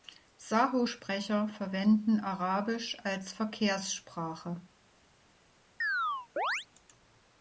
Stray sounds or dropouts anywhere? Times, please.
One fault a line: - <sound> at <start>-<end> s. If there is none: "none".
- chirp at 5.8-6.7 s